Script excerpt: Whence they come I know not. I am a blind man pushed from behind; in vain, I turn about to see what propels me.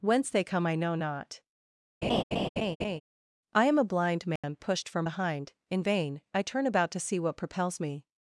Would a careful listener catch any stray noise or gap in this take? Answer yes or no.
yes